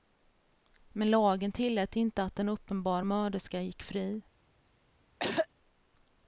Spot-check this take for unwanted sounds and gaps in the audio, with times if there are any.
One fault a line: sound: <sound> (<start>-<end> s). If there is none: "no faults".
sound: throat clearing (5.2-5.5 s)